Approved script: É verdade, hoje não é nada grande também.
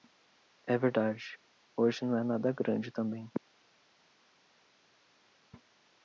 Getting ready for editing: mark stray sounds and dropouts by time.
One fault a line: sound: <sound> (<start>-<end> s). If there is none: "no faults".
no faults